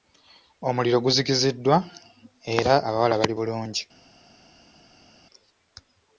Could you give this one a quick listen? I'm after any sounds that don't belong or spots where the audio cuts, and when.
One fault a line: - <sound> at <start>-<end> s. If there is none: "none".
none